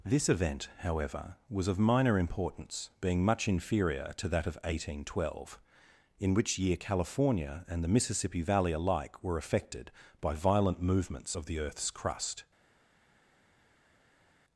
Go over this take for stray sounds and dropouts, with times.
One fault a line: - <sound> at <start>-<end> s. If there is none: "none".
none